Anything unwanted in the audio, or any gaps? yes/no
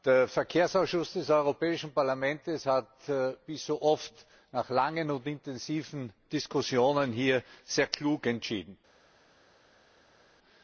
no